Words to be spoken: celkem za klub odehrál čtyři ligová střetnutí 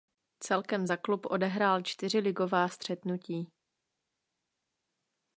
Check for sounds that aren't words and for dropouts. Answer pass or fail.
pass